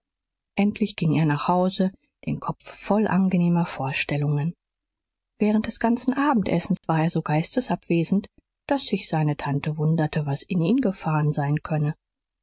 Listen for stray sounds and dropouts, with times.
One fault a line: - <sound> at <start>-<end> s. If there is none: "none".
- dropout at 6.8-6.8 s